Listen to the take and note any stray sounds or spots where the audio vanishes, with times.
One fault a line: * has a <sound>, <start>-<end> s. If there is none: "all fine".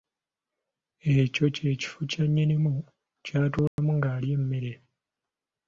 * has a dropout, 3.7-3.8 s